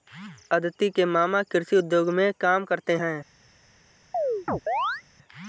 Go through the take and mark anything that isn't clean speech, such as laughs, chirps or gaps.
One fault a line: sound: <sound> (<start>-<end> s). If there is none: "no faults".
sound: chirp (4.1-5.0 s)